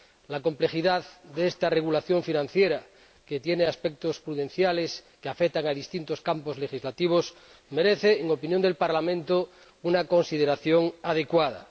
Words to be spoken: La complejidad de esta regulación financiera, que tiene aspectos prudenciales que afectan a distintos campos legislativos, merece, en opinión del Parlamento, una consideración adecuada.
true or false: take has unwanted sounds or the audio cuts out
false